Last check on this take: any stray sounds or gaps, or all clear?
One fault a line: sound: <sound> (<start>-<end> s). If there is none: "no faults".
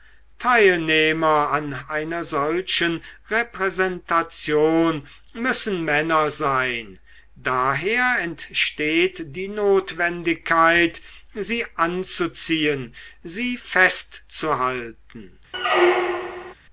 sound: squeak (15.5-16.5 s)